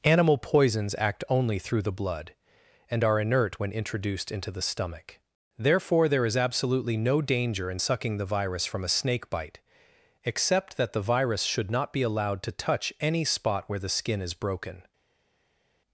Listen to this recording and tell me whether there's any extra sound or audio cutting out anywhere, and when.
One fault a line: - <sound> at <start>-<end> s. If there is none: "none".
none